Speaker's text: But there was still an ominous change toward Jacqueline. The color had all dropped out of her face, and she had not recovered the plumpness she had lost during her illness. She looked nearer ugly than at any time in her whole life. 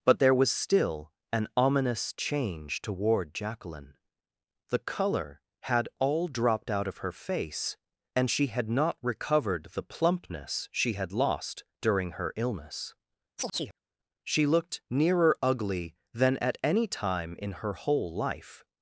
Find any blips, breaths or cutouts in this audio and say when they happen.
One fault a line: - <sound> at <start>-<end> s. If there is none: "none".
- chirp at 13.4-13.8 s